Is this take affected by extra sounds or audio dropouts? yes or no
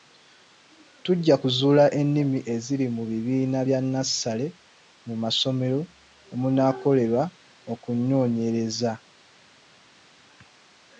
no